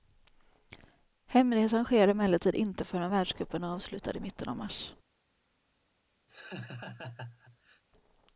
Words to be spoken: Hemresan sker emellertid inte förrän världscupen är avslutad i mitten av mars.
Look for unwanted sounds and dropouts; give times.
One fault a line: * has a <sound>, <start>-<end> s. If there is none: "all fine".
* has a laugh, 6.3-7.8 s